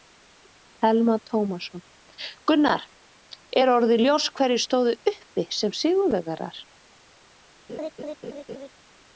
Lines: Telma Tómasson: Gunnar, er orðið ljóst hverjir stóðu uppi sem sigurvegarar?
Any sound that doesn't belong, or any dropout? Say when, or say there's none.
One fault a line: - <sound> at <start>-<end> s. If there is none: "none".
- laugh at 7.7-8.7 s